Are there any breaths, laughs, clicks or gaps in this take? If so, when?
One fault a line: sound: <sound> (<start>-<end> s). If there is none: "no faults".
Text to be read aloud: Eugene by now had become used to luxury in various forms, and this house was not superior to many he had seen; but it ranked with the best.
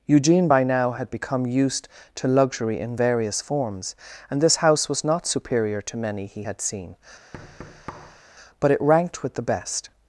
sound: thud (7.3-8.2 s)